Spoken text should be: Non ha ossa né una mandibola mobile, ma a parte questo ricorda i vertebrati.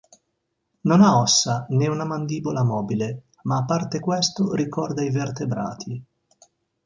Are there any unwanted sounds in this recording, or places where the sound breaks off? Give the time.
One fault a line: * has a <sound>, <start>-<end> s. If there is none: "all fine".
all fine